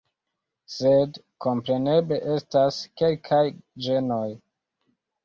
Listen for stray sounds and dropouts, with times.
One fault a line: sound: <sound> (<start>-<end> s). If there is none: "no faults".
no faults